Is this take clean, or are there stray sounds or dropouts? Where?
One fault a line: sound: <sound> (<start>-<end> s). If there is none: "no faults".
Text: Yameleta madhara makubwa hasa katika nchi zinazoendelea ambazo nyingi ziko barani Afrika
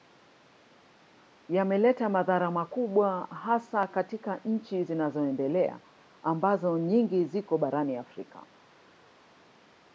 no faults